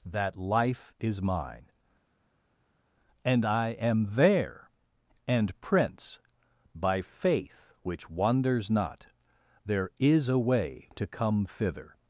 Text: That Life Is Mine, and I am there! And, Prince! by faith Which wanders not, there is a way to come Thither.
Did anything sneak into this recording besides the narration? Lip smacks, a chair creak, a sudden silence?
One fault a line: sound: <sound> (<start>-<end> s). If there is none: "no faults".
no faults